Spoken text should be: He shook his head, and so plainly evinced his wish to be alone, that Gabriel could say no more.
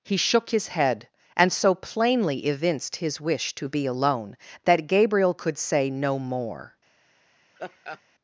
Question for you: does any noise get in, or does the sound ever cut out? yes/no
yes